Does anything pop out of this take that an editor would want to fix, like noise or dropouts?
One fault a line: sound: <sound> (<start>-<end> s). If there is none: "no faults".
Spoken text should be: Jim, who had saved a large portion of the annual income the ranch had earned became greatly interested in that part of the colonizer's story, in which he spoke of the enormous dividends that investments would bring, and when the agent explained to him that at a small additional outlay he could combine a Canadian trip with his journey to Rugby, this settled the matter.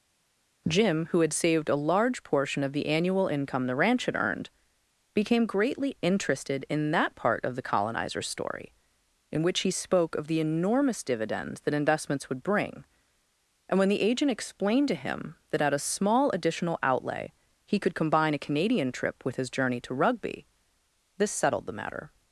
no faults